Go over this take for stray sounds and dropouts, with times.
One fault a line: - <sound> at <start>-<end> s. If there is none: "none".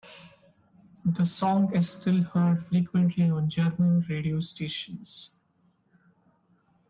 none